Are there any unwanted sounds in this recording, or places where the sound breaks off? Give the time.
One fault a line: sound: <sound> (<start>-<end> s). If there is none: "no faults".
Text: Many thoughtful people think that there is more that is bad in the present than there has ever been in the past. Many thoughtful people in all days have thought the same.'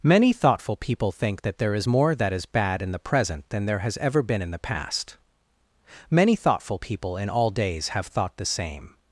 no faults